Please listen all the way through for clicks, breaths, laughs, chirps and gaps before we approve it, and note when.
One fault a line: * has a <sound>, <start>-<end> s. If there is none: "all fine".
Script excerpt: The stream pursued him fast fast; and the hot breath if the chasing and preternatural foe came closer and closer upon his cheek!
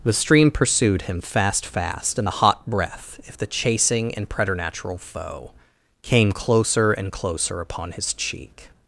all fine